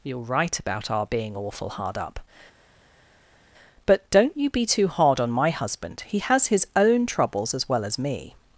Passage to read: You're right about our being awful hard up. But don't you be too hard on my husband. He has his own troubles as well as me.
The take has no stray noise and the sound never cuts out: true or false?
true